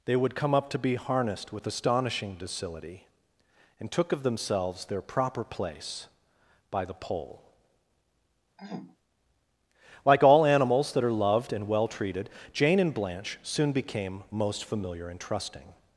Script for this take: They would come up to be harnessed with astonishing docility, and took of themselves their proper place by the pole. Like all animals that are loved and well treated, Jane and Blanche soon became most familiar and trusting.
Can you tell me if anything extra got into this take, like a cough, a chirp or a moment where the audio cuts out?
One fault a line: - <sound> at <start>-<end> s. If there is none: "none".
- throat clearing at 8.6-9.0 s